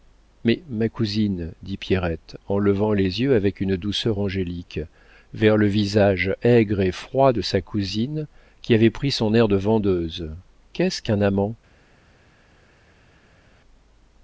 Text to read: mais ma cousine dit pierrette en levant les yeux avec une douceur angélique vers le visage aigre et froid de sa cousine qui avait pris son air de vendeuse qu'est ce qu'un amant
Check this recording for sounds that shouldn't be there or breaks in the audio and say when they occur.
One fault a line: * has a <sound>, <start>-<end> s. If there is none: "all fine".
all fine